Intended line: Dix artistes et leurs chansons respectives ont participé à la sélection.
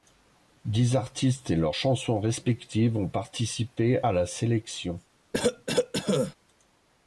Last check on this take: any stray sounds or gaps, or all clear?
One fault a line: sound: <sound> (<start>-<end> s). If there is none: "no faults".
sound: cough (5.3-6.4 s)